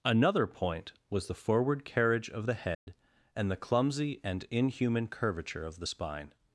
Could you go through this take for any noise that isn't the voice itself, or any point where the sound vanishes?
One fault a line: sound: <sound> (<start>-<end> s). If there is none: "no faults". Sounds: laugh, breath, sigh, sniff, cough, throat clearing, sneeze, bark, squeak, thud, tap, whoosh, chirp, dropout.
sound: dropout (2.7-2.9 s)